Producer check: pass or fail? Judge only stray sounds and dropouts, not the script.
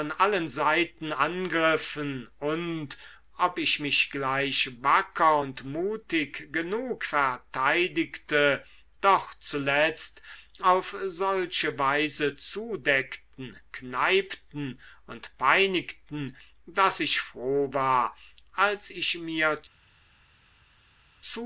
pass